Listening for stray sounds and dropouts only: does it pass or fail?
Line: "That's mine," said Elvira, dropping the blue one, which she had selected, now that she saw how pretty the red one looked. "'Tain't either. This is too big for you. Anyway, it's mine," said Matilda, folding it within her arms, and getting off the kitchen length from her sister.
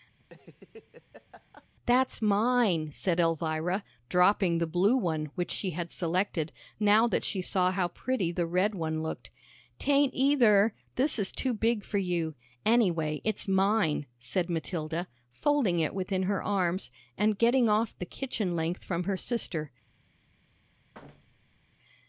fail